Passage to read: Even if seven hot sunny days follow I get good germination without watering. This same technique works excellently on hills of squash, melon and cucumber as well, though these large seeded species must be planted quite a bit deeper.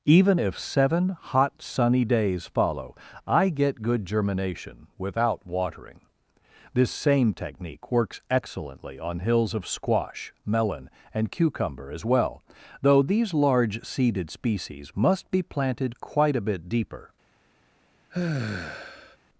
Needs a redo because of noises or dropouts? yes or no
yes